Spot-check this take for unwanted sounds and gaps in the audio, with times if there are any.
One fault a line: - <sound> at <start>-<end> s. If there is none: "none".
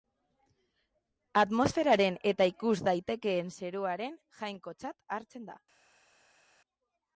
none